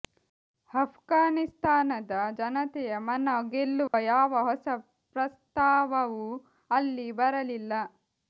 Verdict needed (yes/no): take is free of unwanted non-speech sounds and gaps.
no